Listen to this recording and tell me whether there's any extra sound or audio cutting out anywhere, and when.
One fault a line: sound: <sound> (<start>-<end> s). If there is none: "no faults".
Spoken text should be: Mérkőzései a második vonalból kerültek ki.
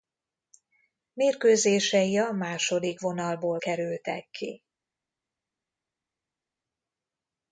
no faults